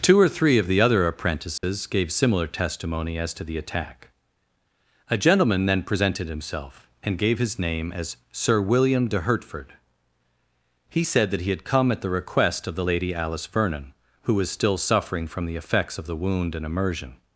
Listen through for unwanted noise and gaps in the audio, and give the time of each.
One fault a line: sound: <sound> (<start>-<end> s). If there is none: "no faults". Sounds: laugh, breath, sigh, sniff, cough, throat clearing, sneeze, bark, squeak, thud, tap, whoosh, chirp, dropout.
sound: dropout (1.6-1.6 s)